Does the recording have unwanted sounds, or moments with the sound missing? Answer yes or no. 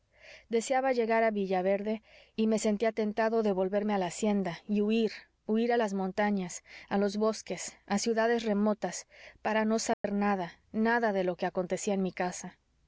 yes